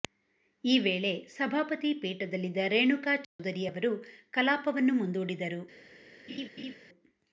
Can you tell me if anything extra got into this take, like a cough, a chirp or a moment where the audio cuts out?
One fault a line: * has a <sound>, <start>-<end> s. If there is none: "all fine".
* has a dropout, 3.2-3.4 s
* has a laugh, 6.3-6.8 s